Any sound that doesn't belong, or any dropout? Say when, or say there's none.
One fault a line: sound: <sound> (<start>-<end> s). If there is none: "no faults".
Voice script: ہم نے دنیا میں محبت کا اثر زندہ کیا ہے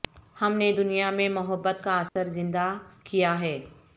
sound: dropout (2.1-2.2 s)